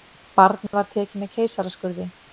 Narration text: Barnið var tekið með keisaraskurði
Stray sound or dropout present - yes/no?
yes